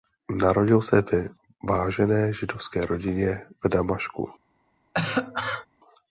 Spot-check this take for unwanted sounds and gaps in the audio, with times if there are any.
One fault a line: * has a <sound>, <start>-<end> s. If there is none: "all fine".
* has a cough, 4.9-5.7 s